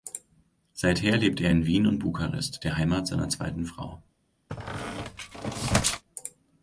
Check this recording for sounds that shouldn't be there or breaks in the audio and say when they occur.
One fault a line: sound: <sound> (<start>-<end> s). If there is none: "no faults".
sound: squeak (4.5-6.0 s)